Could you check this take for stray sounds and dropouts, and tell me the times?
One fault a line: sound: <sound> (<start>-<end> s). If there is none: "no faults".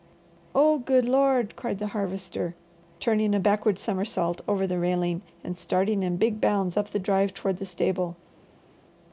no faults